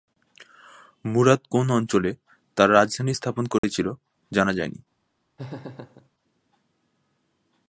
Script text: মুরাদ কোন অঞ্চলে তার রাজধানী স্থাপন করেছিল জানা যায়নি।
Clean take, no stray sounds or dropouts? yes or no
no